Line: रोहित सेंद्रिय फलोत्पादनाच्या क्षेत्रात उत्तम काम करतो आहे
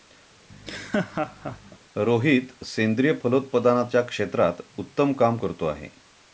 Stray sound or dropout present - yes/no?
yes